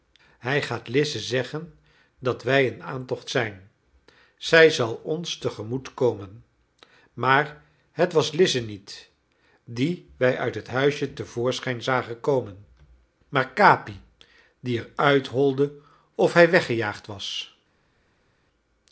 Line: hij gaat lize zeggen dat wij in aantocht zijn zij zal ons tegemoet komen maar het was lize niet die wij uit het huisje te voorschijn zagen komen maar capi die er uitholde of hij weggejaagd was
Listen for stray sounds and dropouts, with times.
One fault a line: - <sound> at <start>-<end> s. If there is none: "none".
none